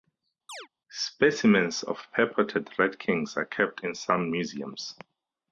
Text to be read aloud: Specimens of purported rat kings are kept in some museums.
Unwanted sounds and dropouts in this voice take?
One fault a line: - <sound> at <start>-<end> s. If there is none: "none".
- chirp at 0.5-0.7 s